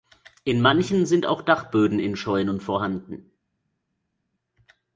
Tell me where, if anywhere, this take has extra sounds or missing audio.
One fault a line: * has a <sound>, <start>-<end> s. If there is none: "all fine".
all fine